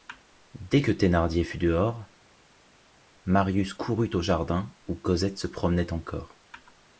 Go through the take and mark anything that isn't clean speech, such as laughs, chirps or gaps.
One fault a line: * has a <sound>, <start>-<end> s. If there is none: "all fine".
all fine